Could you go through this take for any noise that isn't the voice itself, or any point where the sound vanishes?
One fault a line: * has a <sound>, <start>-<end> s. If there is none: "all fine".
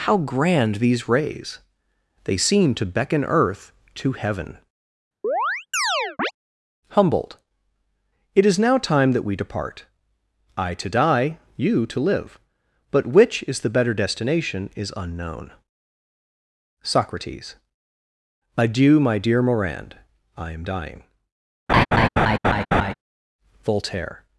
* has a chirp, 5.2-6.3 s
* has a laugh, 21.7-22.9 s